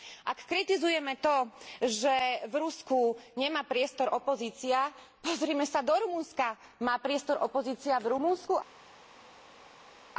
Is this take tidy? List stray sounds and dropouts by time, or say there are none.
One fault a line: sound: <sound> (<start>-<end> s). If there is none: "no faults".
no faults